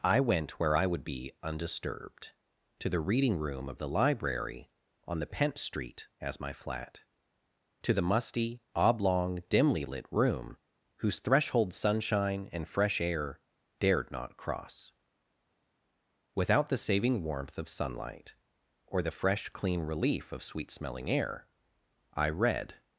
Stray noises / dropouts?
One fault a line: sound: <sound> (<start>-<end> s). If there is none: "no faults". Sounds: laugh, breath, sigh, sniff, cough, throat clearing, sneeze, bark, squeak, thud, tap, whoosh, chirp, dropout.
no faults